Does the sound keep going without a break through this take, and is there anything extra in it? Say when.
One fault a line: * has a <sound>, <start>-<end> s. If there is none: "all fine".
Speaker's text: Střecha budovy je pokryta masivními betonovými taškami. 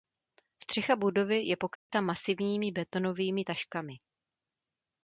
* has a dropout, 1.8-1.9 s